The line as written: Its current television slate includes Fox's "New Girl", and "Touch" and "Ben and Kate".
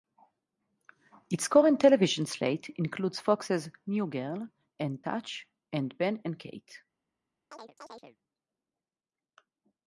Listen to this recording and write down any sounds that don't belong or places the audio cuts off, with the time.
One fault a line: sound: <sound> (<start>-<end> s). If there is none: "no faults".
sound: chirp (7.5-8.2 s)